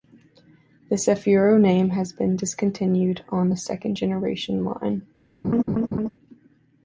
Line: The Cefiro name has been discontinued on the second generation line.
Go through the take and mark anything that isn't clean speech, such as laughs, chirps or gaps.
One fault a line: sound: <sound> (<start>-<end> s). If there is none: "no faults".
sound: laugh (5.4-6.1 s)